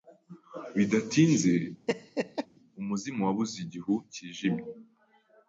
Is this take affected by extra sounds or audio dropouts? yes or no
yes